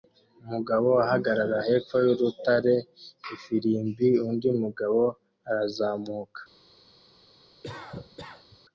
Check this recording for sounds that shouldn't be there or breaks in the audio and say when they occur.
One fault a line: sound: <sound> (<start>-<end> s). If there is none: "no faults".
sound: cough (7.6-8.6 s)